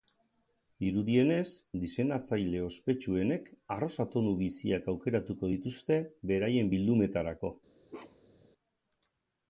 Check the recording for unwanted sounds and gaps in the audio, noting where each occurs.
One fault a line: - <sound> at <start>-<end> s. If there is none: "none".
- bark at 7.9-8.5 s